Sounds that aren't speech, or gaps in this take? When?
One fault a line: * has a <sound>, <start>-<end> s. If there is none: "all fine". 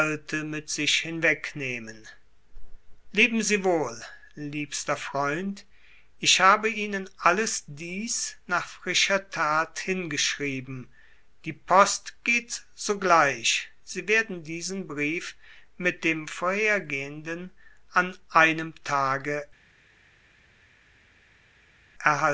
all fine